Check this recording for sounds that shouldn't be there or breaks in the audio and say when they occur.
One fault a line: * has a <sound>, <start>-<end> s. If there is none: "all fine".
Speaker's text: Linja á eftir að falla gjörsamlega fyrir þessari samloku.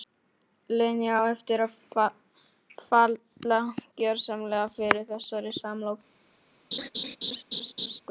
* has a laugh, 6.7-8.0 s